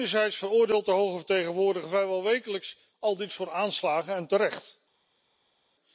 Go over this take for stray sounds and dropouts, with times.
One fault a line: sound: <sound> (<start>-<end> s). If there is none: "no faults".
no faults